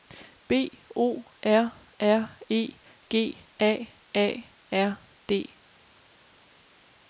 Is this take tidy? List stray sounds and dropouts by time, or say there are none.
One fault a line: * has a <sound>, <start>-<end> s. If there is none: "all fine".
all fine